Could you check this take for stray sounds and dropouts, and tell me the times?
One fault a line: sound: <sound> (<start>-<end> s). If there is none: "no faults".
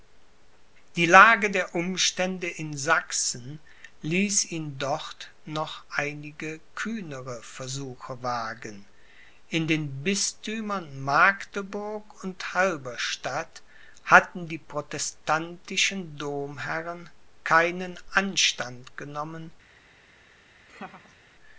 sound: laugh (20.7-21.2 s)